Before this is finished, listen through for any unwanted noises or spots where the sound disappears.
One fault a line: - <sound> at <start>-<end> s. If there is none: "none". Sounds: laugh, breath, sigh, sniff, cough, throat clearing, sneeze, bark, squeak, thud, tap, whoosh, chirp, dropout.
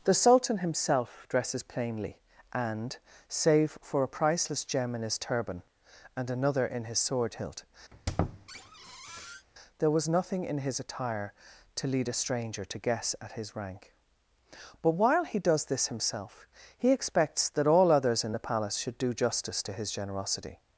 - squeak at 7.9-9.5 s